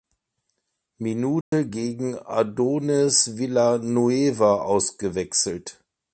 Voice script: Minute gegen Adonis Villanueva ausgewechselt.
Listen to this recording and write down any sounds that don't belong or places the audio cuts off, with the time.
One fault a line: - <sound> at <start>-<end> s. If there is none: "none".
- dropout at 1.4-1.5 s